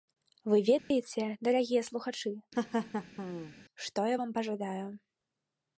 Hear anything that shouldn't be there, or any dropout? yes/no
yes